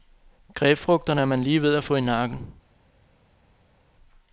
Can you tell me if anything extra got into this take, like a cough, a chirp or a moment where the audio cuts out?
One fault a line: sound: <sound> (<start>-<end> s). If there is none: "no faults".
no faults